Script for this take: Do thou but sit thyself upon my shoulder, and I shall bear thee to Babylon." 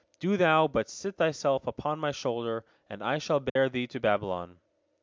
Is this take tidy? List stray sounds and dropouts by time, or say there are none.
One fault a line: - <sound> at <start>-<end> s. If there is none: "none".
- dropout at 3.5-3.6 s